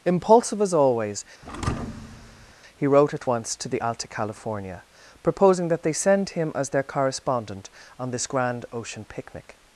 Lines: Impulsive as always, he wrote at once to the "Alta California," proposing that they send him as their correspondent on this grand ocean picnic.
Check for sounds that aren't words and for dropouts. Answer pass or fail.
fail